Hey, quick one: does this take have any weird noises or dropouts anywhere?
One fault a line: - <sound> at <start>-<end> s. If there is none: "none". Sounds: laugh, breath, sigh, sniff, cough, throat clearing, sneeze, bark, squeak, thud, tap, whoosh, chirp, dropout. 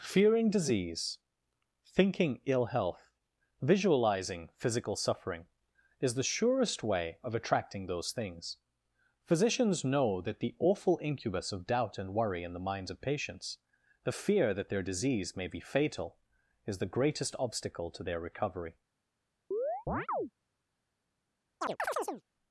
- chirp at 19.5-20.3 s
- chirp at 21.6-22.2 s